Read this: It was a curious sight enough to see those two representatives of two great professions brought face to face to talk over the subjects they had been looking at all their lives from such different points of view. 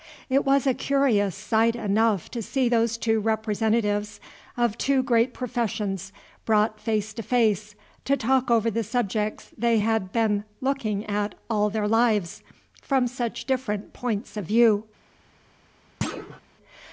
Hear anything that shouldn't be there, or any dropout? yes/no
yes